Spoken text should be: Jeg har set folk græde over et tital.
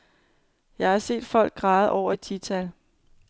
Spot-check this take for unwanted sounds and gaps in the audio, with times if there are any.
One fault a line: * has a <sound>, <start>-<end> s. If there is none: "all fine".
all fine